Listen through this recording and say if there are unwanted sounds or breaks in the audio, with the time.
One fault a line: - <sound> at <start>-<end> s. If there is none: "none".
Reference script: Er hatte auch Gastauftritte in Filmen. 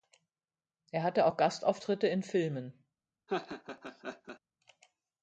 - laugh at 3.3-4.4 s